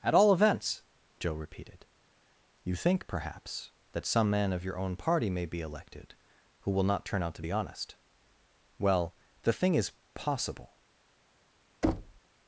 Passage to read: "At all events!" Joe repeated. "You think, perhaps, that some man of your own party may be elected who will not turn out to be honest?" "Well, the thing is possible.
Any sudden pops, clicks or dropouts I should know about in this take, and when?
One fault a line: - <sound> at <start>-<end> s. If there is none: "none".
- thud at 11.8-12.2 s